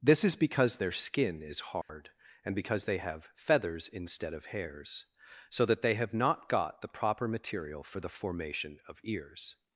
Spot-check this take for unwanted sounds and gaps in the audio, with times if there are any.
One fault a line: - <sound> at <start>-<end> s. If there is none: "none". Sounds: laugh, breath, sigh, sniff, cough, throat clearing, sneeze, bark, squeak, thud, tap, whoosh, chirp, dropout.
- dropout at 1.8-1.9 s